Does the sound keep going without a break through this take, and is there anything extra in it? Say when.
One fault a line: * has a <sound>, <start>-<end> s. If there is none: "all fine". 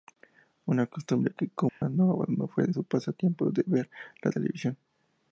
* has a dropout, 1.7-1.8 s